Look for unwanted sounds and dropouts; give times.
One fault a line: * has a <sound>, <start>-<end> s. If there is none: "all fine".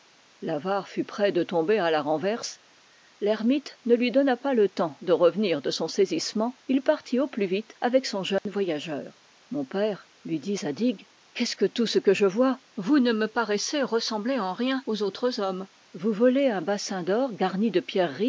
* has a dropout, 8.4-8.5 s